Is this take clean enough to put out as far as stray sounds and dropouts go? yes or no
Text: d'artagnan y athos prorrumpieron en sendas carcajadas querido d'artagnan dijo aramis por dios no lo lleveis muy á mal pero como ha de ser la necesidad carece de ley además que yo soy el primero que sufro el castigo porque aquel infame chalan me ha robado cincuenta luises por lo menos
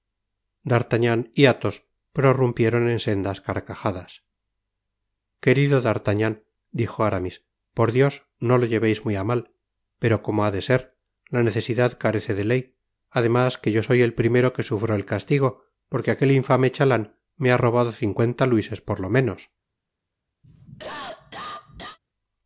no